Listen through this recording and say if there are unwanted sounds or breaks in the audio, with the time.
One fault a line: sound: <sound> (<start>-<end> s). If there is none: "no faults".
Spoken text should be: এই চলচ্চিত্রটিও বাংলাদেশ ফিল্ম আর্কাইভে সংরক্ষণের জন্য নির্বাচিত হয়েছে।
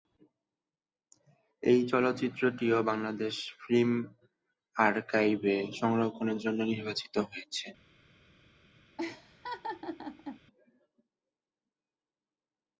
sound: laugh (9.0-10.4 s)